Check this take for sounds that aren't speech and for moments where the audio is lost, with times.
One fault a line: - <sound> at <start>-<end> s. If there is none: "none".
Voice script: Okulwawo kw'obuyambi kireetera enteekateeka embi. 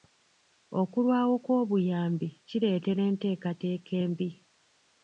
none